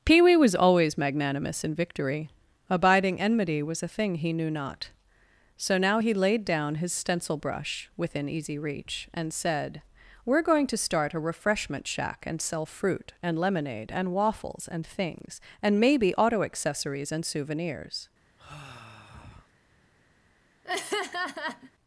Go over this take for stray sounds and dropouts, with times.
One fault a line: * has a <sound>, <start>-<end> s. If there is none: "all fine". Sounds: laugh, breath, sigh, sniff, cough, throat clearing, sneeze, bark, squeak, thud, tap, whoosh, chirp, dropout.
* has a sigh, 18.4-19.5 s
* has a laugh, 20.6-21.7 s